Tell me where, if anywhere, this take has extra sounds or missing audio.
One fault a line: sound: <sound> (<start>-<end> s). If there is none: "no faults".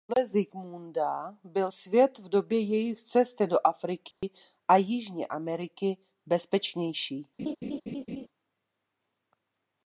sound: dropout (4.1-4.2 s)
sound: laugh (7.4-8.3 s)